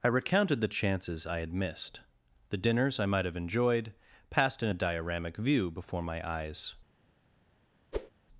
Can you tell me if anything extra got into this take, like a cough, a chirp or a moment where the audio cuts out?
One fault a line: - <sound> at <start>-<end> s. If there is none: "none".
- whoosh at 7.9-8.1 s